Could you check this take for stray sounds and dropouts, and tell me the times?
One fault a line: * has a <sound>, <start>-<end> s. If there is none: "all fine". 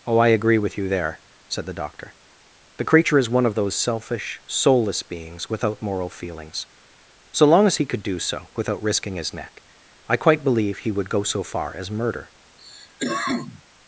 * has a cough, 12.6-13.6 s